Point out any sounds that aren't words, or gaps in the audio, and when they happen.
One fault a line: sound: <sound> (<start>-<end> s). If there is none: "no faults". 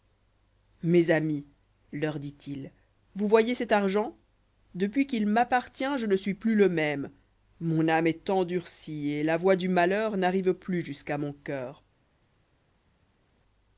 no faults